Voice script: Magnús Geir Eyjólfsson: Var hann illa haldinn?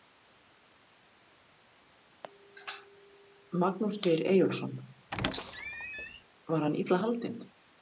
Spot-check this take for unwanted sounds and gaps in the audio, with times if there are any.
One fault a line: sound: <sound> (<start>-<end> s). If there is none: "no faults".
sound: squeak (5.1-6.2 s)